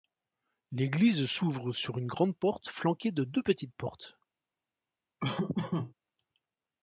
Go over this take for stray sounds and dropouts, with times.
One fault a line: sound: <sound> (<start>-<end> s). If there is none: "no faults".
sound: laugh (5.2-5.9 s)